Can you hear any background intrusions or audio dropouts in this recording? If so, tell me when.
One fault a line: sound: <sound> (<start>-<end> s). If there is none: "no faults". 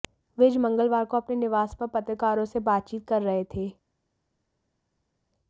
no faults